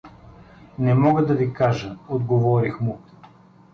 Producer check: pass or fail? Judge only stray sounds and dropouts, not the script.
pass